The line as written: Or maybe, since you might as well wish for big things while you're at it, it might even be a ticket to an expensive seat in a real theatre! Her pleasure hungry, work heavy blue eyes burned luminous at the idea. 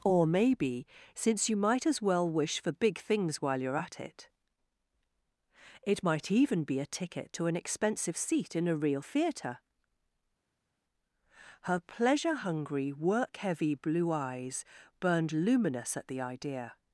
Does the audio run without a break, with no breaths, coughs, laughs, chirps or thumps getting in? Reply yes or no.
yes